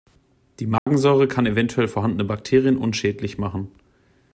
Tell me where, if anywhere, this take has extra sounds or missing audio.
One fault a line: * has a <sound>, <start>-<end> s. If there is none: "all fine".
* has a dropout, 0.8-0.9 s